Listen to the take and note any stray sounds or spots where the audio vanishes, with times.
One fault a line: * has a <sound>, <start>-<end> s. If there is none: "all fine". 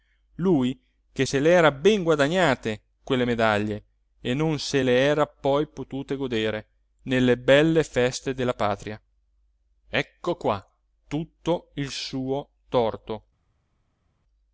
all fine